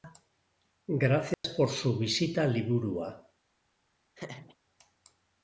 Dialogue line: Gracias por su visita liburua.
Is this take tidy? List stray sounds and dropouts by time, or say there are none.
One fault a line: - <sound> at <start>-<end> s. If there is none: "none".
- dropout at 1.3-1.4 s
- laugh at 4.1-4.6 s